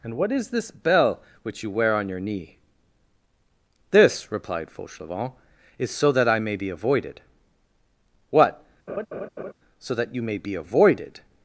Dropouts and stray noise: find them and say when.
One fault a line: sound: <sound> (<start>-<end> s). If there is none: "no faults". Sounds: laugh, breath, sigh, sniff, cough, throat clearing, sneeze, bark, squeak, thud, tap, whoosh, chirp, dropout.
sound: laugh (8.9-9.5 s)